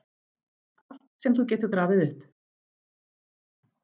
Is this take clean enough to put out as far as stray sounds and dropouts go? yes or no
yes